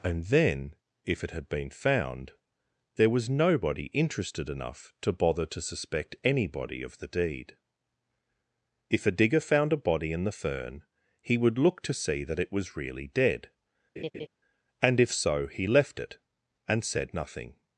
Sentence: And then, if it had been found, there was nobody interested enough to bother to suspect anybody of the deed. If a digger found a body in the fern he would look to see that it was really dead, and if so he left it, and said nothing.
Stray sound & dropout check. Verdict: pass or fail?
fail